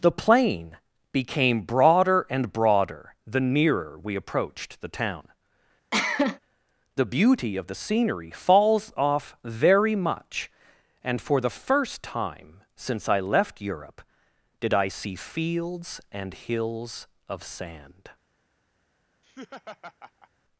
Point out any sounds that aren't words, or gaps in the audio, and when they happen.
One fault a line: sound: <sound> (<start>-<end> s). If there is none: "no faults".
sound: cough (5.9-6.4 s)
sound: laugh (19.2-20.3 s)